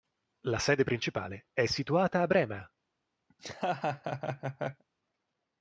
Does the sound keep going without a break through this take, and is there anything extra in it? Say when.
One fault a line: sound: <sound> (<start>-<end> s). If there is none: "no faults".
sound: laugh (3.3-4.8 s)